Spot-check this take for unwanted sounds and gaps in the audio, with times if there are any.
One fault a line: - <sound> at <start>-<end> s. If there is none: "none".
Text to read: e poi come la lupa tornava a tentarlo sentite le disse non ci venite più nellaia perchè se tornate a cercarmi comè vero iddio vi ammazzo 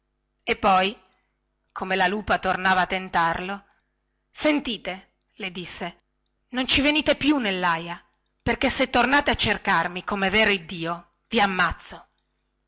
none